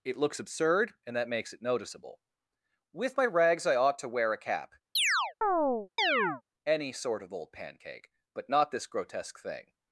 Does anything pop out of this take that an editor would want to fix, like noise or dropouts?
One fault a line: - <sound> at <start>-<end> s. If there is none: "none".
- chirp at 5.0-6.4 s